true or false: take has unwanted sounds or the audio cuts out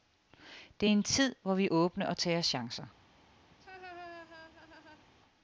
true